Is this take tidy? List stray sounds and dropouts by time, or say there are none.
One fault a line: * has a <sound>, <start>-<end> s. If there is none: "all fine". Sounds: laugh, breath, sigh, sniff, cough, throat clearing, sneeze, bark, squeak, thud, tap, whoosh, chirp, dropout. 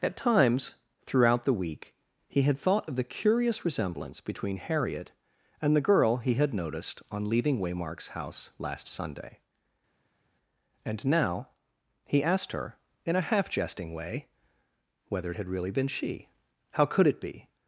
all fine